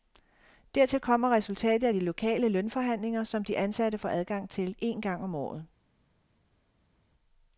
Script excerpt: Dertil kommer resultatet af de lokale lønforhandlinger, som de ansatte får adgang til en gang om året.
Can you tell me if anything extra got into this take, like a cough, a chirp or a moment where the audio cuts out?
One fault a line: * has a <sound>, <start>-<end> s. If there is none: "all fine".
all fine